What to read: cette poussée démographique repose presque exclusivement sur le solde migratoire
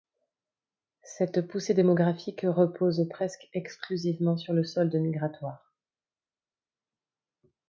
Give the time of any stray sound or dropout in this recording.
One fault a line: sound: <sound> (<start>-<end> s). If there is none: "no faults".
no faults